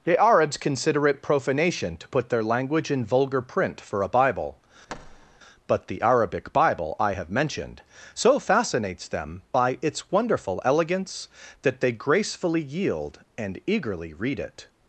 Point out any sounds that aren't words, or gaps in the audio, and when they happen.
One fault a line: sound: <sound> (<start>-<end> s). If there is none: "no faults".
sound: thud (4.9-5.4 s)